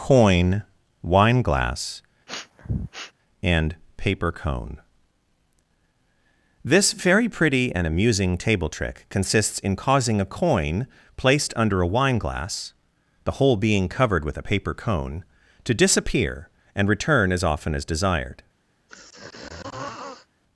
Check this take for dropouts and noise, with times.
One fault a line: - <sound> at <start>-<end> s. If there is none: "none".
- sniff at 2.3-3.1 s
- throat clearing at 18.9-20.3 s